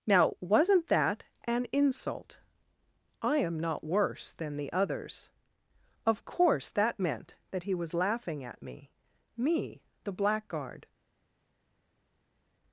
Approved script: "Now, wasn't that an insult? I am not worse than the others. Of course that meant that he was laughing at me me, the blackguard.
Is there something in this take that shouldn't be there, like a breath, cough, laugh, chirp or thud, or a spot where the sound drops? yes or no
no